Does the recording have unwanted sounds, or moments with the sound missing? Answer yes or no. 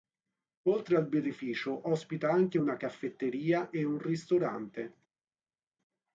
no